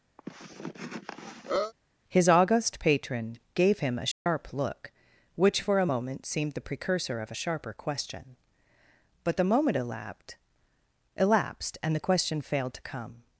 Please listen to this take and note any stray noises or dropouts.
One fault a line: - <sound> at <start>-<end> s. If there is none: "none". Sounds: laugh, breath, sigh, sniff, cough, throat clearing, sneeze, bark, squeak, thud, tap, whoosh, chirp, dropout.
- cough at 0.2-1.7 s
- dropout at 4.1-4.3 s